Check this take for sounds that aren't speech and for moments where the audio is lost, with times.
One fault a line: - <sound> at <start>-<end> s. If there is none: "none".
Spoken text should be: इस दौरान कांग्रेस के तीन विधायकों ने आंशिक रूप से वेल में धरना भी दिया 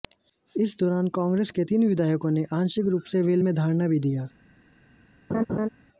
- laugh at 5.3-5.7 s